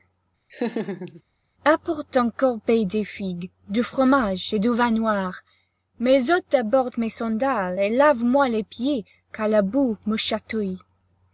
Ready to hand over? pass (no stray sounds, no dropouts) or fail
fail